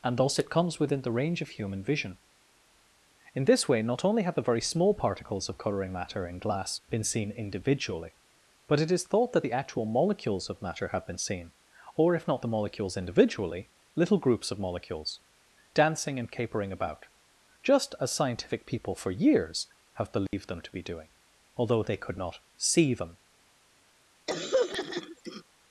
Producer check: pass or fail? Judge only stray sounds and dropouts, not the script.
fail